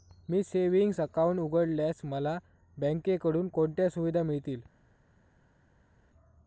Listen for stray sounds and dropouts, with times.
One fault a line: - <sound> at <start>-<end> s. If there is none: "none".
none